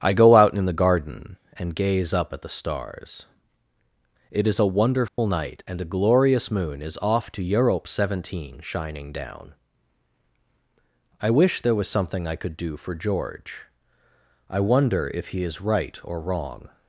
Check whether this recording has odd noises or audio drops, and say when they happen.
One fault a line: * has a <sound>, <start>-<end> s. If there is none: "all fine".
* has a dropout, 5.1-5.2 s